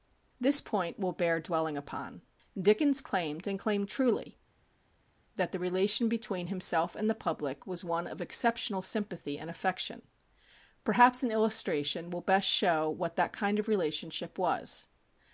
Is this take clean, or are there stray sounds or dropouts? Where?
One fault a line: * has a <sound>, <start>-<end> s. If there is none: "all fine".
all fine